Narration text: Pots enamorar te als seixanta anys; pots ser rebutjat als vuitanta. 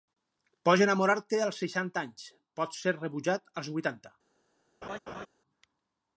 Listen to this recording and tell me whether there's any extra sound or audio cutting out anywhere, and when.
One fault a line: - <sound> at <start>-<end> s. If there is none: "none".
- laugh at 4.8-5.3 s